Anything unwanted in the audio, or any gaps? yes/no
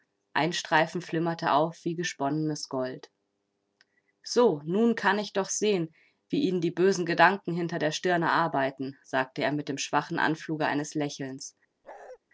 yes